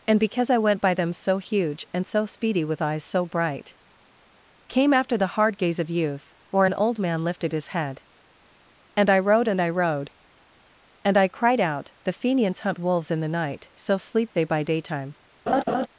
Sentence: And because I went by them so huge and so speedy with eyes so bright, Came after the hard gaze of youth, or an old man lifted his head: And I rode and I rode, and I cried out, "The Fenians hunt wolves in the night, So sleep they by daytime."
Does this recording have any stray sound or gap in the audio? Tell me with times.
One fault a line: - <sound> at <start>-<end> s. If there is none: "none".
- laugh at 15.5-15.9 s